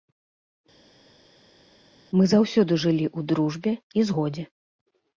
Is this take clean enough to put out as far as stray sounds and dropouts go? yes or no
yes